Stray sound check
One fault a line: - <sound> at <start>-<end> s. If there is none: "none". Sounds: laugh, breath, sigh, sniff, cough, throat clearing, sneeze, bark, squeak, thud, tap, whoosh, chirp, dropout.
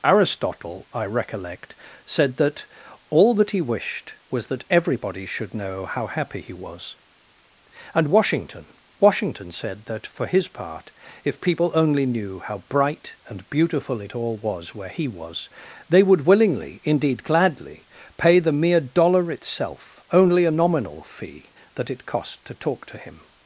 none